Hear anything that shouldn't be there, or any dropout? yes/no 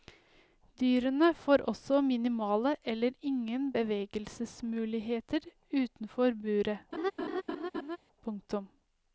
yes